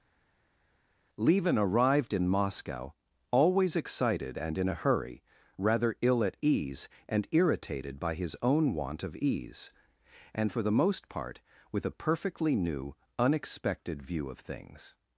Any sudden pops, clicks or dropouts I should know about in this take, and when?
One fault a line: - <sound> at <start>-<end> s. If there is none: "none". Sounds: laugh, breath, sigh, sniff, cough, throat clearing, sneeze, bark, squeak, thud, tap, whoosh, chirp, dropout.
none